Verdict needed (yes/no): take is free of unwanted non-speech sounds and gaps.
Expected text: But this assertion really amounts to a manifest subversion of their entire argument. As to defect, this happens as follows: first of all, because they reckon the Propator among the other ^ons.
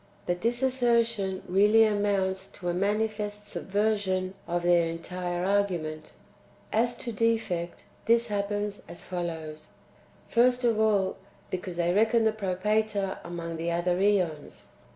yes